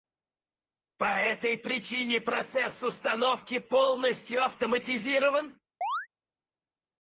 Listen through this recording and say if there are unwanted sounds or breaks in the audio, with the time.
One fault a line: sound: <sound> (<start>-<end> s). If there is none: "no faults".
sound: chirp (5.8-6.1 s)